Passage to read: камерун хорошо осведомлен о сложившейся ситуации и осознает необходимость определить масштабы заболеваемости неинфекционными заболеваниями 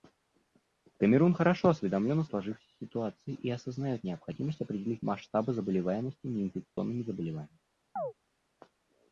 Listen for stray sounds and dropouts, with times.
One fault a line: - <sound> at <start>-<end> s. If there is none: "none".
- dropout at 6.7-6.8 s
- chirp at 8.0-8.1 s